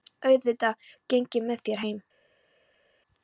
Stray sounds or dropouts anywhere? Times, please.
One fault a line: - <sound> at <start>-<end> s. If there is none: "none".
none